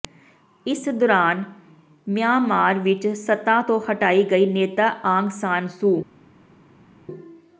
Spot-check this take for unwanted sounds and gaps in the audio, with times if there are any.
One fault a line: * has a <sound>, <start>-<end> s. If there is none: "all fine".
all fine